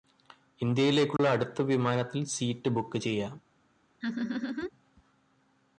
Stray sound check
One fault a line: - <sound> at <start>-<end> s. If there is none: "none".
- dropout at 1.2-1.2 s
- laugh at 4.0-4.7 s